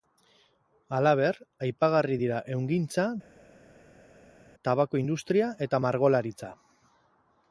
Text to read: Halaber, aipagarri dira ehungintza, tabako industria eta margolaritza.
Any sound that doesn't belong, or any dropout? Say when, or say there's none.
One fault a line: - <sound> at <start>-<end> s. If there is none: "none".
none